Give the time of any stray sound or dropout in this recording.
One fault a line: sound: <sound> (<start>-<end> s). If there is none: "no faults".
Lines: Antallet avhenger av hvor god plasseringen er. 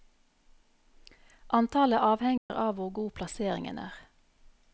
sound: dropout (2.4-2.5 s)